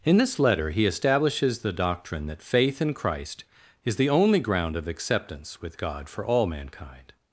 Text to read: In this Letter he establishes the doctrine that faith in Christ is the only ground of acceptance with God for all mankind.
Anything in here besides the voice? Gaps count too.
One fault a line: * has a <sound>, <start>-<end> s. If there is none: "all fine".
all fine